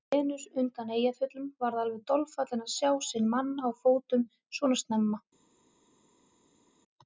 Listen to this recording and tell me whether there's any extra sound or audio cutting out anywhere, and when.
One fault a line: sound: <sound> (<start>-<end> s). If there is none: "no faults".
no faults